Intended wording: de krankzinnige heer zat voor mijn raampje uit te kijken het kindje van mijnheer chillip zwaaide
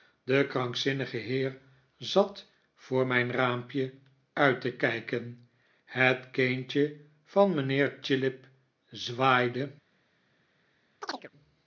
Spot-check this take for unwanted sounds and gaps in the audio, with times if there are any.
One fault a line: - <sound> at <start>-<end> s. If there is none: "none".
- chirp at 11.0-11.3 s